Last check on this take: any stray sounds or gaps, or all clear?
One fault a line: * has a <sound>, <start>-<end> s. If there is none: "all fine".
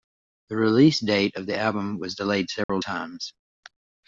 * has a dropout, 2.6-2.7 s